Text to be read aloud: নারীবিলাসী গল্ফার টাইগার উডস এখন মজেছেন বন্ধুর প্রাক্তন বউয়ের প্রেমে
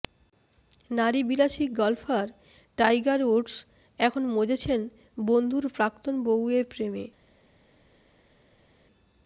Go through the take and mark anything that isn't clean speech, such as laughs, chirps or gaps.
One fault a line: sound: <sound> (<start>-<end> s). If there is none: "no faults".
no faults